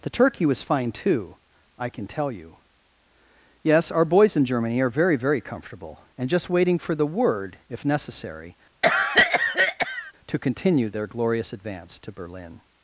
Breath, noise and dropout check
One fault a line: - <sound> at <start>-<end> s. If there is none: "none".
- cough at 8.8-10.1 s